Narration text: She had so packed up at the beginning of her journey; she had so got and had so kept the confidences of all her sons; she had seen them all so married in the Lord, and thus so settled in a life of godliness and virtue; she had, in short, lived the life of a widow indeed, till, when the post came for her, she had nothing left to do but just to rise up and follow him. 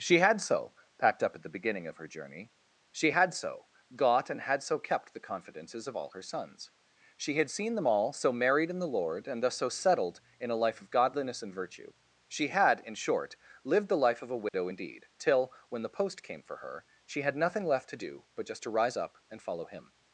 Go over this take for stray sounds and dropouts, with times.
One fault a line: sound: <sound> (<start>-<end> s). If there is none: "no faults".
sound: dropout (14.5-14.5 s)